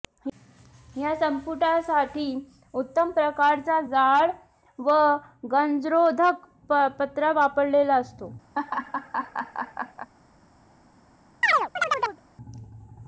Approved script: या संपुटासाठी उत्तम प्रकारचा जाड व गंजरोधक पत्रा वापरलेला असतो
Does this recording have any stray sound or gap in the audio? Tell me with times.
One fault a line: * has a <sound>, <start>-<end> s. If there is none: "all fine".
* has a laugh, 8.5-10.1 s
* has a chirp, 11.4-12.2 s